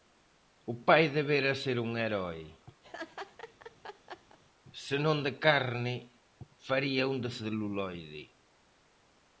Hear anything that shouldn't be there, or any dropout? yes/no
yes